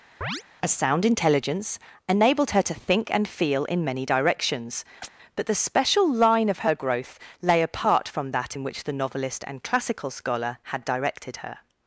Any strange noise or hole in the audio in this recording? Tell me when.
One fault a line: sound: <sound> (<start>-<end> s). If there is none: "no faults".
sound: chirp (0.2-0.4 s)
sound: chirp (5.0-5.1 s)